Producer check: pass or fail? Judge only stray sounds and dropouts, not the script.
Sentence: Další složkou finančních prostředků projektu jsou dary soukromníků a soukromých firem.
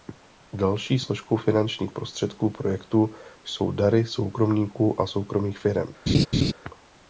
fail